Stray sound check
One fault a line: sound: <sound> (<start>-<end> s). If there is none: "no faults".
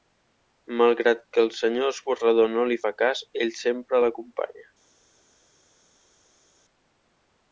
no faults